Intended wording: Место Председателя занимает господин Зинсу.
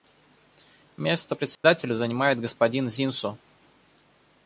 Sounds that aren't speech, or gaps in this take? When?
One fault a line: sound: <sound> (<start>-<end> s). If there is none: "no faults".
sound: dropout (1.5-1.6 s)